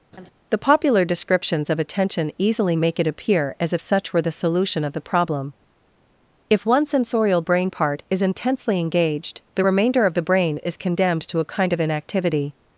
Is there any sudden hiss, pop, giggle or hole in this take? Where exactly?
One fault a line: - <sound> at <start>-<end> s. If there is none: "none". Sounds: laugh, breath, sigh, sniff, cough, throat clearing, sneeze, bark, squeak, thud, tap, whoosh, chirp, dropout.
- laugh at 0.1-0.3 s